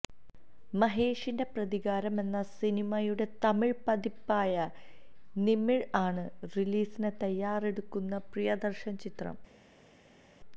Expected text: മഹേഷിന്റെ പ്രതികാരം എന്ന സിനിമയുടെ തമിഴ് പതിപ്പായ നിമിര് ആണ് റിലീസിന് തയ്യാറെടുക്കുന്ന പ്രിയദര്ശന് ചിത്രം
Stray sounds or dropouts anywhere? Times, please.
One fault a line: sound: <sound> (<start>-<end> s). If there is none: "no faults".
no faults